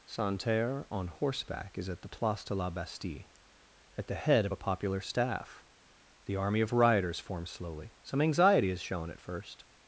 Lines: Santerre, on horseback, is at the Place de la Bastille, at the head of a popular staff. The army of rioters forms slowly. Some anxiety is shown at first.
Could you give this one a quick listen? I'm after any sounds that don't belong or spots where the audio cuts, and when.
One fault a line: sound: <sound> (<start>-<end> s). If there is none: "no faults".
no faults